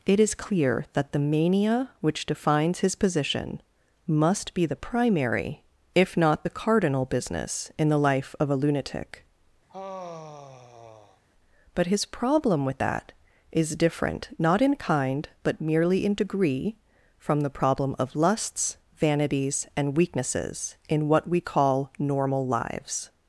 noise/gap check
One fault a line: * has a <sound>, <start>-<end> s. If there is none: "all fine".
* has a sigh, 9.7-11.2 s